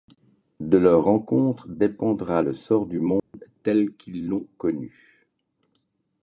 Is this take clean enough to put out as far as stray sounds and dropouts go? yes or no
no